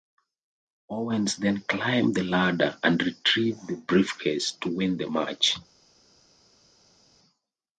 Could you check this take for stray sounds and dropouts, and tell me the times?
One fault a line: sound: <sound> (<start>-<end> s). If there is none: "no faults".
no faults